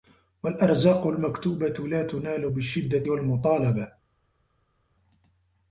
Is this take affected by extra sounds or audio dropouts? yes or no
no